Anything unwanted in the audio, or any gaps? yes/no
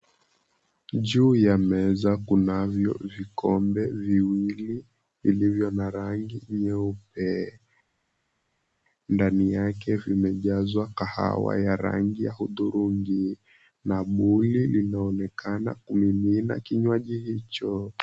no